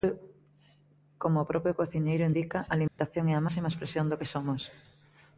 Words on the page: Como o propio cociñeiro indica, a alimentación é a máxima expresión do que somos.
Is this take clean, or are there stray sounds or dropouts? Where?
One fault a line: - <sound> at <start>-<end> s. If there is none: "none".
- dropout at 2.9-3.0 s